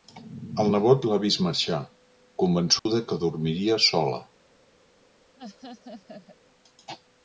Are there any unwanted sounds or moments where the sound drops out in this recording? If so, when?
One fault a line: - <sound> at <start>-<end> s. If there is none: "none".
- dropout at 2.8-2.9 s
- laugh at 5.4-6.4 s